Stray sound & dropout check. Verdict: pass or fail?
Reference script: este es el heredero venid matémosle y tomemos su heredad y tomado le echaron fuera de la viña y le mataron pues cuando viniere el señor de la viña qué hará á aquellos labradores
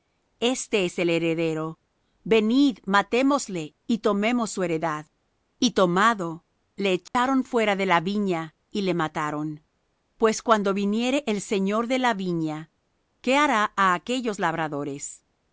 fail